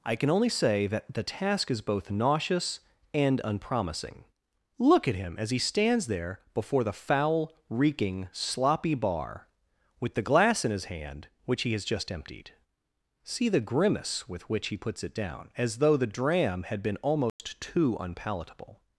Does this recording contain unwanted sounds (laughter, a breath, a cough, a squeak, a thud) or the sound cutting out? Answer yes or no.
yes